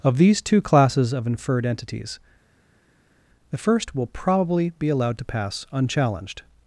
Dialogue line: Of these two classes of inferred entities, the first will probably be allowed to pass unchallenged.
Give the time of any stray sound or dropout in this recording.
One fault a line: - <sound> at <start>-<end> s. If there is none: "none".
none